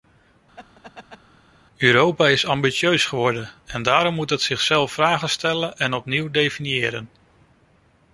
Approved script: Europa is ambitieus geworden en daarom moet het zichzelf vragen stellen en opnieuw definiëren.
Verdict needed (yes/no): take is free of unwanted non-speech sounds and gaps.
no